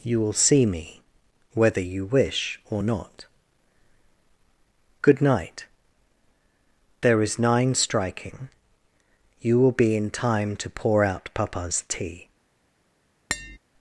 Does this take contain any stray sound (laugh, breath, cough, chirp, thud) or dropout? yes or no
yes